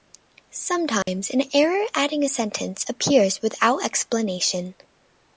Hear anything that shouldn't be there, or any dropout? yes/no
yes